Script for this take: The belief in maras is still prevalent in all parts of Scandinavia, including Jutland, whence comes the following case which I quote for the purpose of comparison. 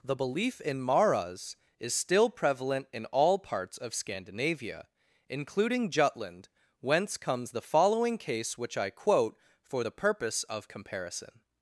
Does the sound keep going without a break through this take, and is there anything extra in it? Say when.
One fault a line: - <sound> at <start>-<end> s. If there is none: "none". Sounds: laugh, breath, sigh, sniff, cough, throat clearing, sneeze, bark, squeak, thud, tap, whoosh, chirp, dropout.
none